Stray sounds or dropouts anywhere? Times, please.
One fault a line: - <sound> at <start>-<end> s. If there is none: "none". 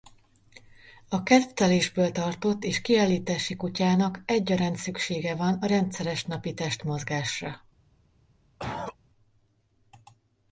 - cough at 8.6-9.0 s